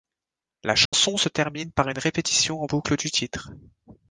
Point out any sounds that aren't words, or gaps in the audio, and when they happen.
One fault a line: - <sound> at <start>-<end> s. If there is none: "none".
- dropout at 0.9-0.9 s